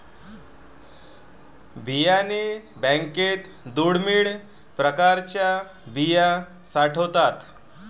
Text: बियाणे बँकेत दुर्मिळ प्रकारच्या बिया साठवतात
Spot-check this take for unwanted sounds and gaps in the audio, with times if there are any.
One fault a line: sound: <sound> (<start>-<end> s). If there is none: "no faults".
no faults